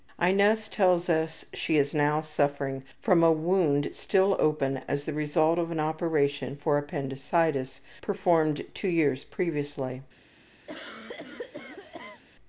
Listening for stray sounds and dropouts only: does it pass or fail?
fail